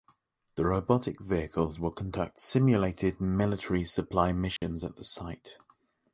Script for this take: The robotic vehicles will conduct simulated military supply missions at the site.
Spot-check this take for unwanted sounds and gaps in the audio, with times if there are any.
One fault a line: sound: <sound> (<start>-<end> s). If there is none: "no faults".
sound: dropout (4.6-4.6 s)